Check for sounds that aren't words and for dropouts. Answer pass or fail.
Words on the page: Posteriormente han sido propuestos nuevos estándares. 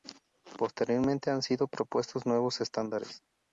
pass